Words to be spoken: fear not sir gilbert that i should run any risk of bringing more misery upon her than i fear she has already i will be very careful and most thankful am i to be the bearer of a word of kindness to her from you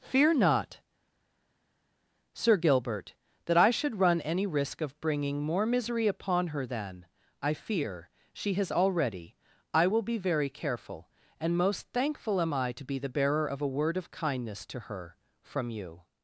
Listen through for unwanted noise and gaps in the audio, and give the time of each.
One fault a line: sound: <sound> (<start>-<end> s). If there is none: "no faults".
no faults